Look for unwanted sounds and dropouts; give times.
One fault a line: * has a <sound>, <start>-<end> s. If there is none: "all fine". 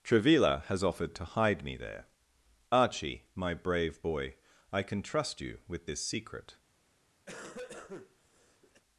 * has a cough, 7.3-8.8 s